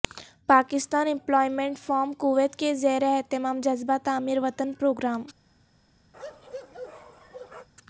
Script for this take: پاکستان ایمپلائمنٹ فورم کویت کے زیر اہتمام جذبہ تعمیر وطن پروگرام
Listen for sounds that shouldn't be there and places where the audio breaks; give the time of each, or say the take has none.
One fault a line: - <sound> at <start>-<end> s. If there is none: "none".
- bark at 6.1-7.7 s